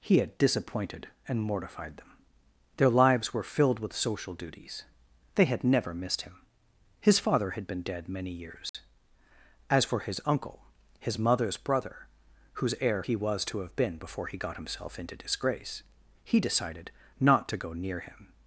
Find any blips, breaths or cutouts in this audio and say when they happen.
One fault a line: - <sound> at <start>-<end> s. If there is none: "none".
- dropout at 8.7-8.7 s